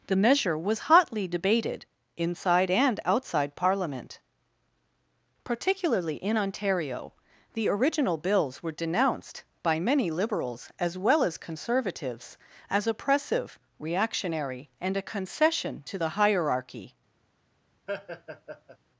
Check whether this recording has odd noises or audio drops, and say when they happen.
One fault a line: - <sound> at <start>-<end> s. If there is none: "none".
- laugh at 17.9-18.8 s